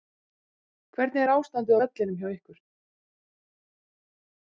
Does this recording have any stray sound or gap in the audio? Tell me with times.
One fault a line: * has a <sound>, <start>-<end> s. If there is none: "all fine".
all fine